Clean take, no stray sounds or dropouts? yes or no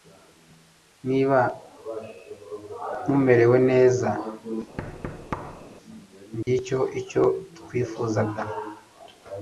no